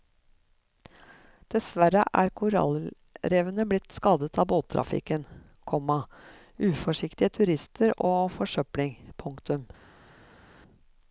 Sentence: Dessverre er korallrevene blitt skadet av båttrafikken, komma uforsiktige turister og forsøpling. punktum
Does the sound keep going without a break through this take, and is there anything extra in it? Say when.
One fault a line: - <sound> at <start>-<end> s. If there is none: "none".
none